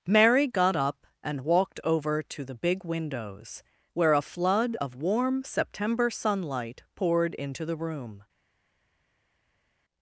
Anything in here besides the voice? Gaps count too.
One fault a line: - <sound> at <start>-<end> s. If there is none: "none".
none